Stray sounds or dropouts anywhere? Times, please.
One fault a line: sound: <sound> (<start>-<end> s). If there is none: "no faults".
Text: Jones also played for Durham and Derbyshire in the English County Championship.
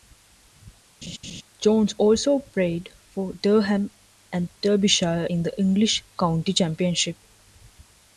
sound: laugh (1.0-1.4 s)